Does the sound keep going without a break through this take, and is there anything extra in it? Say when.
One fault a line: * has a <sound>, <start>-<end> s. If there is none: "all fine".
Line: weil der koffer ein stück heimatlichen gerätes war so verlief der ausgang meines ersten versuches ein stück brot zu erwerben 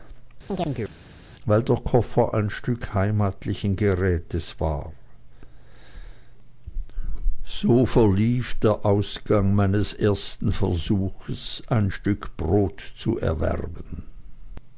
* has a chirp, 0.5-1.0 s